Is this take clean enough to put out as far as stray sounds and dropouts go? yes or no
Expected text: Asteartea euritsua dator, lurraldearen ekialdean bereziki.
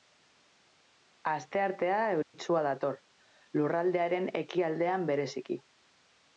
no